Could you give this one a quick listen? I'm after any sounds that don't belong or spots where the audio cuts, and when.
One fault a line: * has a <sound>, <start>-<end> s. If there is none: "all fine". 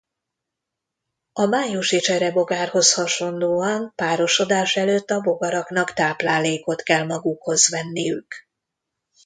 all fine